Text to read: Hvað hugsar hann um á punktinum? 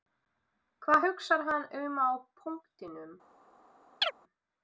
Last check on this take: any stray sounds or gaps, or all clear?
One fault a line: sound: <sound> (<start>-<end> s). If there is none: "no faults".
sound: chirp (4.0-4.1 s)